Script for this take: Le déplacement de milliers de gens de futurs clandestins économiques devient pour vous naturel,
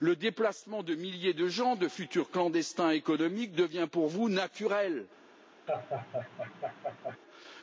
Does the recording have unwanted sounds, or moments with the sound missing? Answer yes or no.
yes